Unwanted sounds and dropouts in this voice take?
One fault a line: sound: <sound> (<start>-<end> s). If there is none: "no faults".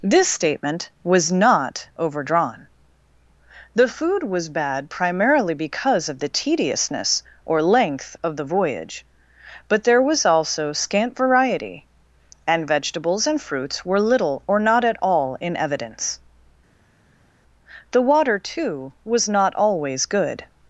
no faults